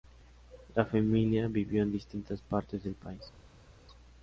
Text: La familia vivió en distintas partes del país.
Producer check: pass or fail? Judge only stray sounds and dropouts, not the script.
pass